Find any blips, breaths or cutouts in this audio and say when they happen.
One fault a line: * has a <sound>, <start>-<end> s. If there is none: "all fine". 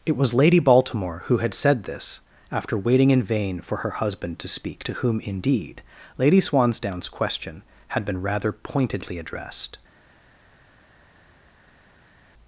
all fine